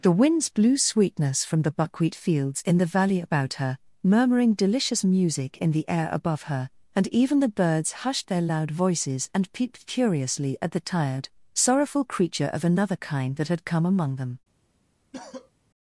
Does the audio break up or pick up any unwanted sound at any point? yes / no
yes